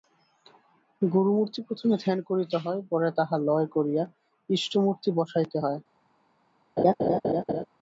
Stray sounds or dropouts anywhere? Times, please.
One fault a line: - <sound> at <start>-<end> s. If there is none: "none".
- laugh at 6.8-7.7 s